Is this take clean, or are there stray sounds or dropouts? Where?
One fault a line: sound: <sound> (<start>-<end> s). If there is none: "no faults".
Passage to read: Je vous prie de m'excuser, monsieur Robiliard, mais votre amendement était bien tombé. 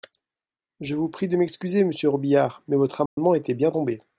sound: dropout (3.1-3.2 s)